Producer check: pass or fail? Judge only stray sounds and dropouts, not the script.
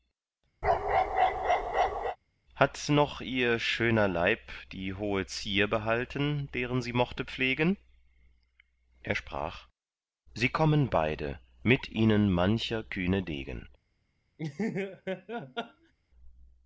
fail